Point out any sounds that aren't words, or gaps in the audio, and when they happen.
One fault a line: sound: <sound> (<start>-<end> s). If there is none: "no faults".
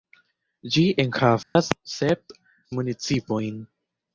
sound: dropout (1.4-1.6 s)